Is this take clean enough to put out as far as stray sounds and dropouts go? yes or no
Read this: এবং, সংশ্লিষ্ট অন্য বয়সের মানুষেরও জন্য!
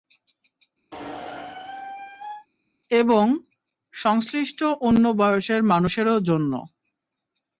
no